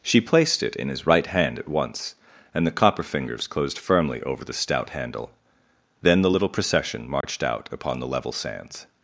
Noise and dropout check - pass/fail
fail